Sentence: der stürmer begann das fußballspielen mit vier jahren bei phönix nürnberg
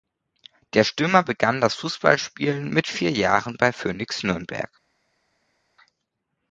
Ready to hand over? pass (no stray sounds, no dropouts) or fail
pass